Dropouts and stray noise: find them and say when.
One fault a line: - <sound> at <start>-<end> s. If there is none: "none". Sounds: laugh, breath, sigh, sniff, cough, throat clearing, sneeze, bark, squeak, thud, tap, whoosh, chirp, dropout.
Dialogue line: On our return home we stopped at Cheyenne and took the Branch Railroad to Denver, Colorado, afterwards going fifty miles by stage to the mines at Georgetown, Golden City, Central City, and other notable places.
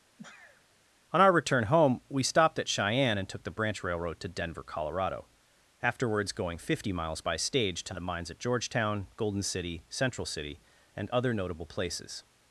- sneeze at 0.2-0.7 s